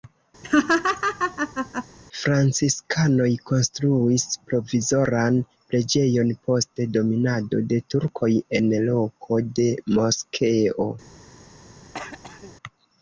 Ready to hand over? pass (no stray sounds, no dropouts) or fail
fail